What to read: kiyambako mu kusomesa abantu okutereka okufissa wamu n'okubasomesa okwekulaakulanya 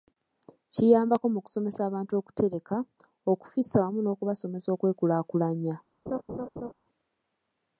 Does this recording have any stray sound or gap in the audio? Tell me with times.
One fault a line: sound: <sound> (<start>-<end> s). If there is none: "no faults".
sound: laugh (6.1-6.7 s)